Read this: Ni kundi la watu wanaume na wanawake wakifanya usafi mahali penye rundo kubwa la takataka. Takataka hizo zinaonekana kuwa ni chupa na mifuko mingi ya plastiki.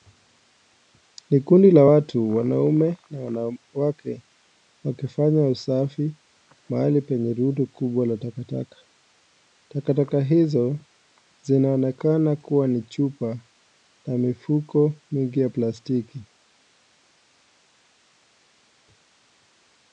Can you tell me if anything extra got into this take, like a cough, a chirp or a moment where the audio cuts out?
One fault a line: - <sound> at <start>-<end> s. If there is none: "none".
none